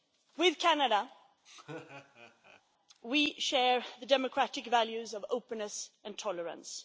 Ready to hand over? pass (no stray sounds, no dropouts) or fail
fail